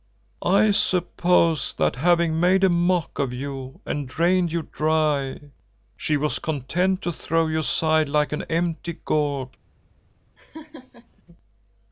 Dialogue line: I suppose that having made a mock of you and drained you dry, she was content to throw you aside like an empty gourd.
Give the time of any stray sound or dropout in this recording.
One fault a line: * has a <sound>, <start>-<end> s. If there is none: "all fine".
* has a laugh, 10.4-11.2 s